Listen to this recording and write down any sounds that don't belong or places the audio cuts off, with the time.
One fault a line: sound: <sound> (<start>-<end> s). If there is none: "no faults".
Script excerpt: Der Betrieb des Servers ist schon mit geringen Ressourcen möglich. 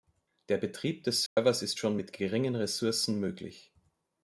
sound: dropout (1.3-1.4 s)